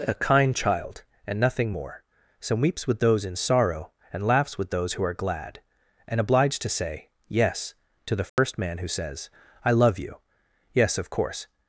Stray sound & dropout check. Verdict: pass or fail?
fail